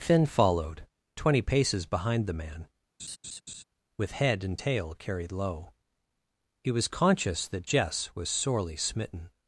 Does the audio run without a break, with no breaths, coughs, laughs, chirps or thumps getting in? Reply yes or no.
no